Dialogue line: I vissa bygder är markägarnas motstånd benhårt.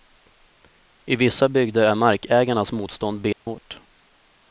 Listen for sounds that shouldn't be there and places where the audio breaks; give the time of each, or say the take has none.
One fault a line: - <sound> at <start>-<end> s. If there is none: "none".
- dropout at 3.3-3.5 s